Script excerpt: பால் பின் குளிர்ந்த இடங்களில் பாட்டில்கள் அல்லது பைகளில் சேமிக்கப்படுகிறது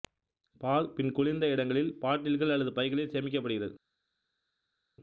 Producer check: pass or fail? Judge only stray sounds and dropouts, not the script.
pass